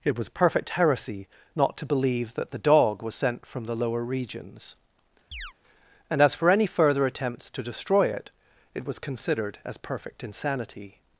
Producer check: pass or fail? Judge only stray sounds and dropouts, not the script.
fail